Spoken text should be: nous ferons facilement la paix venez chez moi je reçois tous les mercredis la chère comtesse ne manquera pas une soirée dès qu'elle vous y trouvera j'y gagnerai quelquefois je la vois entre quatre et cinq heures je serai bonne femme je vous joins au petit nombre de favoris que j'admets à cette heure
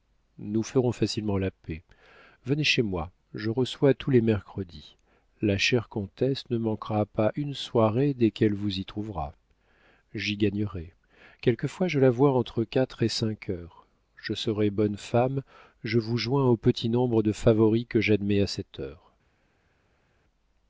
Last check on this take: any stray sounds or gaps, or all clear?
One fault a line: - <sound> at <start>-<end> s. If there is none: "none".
none